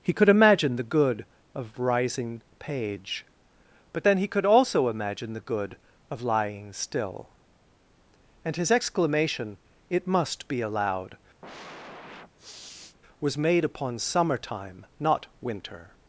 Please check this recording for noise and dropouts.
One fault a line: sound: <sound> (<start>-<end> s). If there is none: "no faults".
sound: sniff (11.4-13.0 s)